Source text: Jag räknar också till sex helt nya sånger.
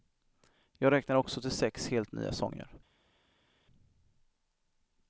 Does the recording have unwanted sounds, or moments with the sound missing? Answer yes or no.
no